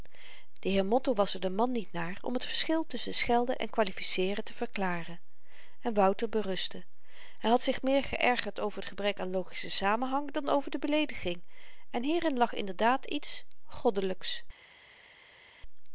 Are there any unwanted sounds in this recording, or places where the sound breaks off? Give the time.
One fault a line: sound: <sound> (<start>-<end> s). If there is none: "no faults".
no faults